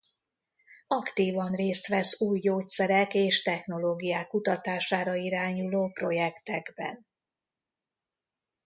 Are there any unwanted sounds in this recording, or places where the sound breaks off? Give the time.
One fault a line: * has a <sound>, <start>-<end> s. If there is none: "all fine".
all fine